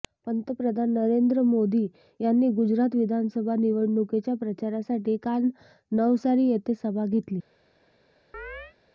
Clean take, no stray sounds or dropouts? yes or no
no